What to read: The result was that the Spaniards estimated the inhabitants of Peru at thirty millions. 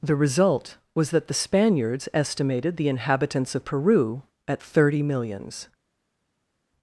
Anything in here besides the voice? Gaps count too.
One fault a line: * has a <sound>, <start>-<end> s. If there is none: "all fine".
all fine